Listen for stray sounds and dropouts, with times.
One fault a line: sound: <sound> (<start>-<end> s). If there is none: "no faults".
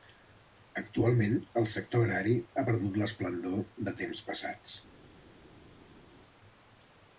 no faults